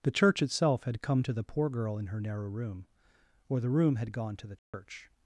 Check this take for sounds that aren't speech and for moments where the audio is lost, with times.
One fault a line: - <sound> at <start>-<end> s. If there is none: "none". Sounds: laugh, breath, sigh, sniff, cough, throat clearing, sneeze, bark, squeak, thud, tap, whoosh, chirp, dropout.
- dropout at 4.6-4.7 s